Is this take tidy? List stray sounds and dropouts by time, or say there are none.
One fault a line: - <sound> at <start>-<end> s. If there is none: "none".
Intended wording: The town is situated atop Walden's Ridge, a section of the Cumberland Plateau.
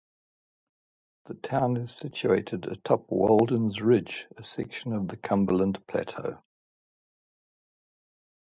none